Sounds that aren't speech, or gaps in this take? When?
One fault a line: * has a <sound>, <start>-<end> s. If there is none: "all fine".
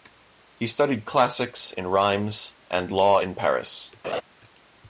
* has a laugh, 4.0-4.2 s